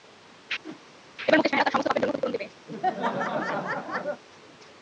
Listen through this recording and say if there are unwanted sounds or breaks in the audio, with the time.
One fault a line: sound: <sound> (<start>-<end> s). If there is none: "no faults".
sound: whoosh (0.6-0.8 s)
sound: laugh (2.7-4.2 s)